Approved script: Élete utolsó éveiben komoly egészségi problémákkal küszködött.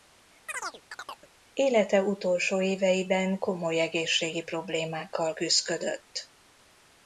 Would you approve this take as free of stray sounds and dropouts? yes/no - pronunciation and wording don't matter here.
no